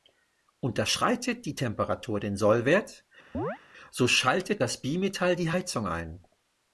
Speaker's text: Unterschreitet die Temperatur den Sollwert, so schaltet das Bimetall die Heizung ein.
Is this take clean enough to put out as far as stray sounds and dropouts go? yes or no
no